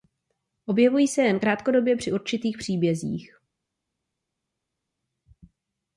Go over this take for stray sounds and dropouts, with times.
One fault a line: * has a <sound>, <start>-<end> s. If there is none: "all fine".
all fine